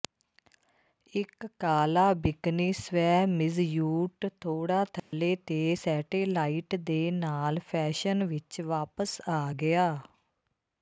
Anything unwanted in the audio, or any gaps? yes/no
yes